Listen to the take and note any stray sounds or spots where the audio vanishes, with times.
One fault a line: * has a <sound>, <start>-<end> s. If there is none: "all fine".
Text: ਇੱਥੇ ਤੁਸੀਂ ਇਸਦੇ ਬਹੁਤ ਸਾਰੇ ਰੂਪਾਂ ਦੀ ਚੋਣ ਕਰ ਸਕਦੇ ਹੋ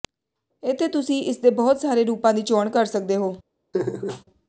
* has a laugh, 3.7-4.2 s